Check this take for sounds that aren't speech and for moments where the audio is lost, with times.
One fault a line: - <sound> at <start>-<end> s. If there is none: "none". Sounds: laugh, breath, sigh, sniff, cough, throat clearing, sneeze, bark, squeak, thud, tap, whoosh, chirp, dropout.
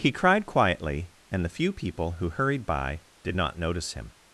none